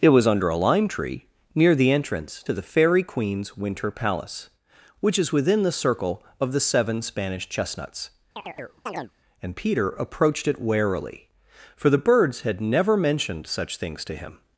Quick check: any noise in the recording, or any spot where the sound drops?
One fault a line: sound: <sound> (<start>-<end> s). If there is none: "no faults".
sound: chirp (8.4-9.1 s)